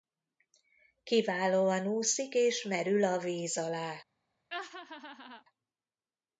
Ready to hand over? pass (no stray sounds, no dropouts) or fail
fail